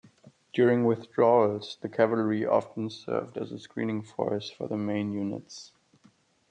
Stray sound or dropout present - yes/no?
no